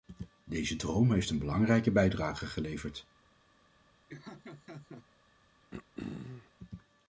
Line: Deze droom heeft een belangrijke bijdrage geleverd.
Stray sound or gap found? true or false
true